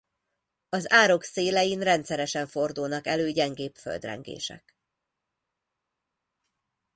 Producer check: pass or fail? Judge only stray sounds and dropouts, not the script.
pass